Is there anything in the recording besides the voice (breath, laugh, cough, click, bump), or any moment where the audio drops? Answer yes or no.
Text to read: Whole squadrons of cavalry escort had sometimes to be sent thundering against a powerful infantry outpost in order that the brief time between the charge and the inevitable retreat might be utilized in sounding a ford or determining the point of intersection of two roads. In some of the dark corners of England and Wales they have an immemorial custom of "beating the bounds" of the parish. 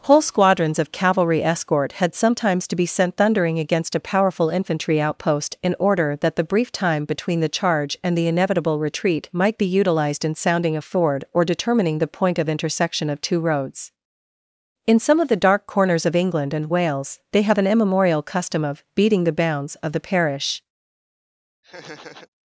yes